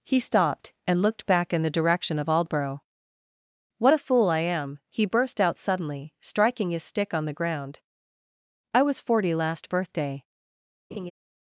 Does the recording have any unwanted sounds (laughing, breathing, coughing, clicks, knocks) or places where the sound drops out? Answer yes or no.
yes